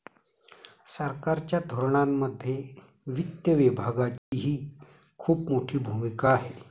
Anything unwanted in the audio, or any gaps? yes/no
yes